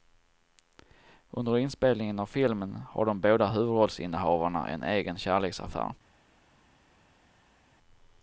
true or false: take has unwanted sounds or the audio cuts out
false